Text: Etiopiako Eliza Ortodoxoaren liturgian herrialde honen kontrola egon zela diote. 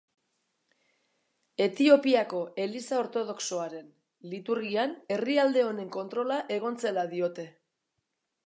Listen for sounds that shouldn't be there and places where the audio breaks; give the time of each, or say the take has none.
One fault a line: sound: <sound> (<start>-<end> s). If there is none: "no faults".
no faults